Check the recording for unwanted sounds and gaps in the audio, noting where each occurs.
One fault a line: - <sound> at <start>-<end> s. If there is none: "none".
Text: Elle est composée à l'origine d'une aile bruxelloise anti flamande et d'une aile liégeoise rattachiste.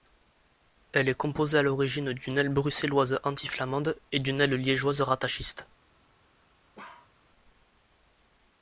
- bark at 6.8-7.1 s